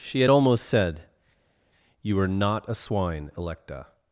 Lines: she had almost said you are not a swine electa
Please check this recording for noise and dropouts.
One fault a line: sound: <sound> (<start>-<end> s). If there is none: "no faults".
no faults